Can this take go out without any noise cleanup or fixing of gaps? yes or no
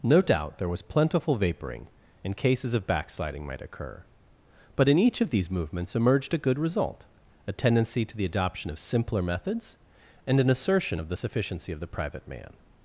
yes